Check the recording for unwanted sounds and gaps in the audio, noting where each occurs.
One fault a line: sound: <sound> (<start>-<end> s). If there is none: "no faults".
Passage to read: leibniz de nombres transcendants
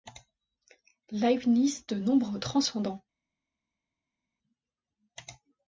no faults